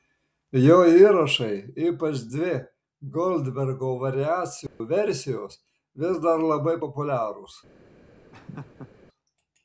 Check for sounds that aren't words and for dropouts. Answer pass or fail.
fail